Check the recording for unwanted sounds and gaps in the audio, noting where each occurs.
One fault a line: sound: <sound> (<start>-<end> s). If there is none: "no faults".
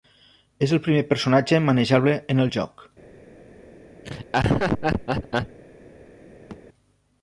sound: laugh (4.0-5.6 s)
sound: thud (6.5-6.6 s)